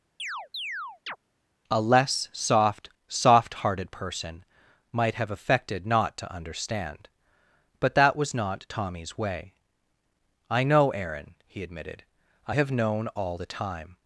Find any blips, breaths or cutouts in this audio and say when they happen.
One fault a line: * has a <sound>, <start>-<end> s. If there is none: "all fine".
* has a chirp, 0.2-1.2 s